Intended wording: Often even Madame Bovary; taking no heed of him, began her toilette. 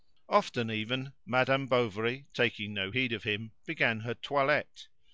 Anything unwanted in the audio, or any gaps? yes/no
no